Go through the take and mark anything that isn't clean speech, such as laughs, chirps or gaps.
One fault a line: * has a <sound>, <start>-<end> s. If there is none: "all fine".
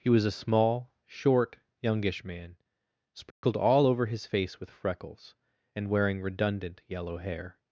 * has a dropout, 3.3-3.4 s